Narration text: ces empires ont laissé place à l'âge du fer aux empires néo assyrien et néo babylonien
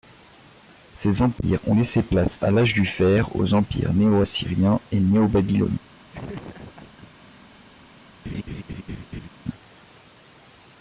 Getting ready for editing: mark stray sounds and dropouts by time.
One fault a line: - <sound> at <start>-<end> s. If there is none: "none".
- laugh at 6.1-7.1 s
- laugh at 8.2-9.3 s